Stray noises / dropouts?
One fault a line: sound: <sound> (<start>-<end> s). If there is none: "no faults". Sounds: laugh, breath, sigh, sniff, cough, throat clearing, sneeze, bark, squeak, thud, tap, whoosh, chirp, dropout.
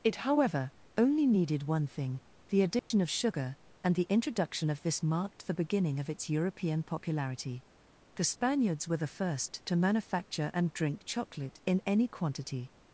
sound: dropout (2.8-2.9 s)